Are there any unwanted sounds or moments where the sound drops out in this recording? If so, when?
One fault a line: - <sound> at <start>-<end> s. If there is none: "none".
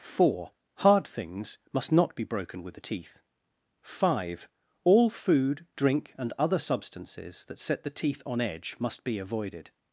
none